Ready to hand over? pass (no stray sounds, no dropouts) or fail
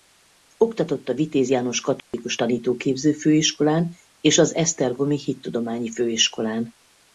fail